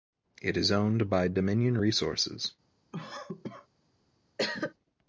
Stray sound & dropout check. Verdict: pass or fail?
fail